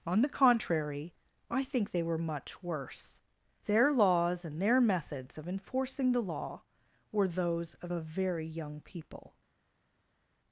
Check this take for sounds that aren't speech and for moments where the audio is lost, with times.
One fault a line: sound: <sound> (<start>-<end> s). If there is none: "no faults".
no faults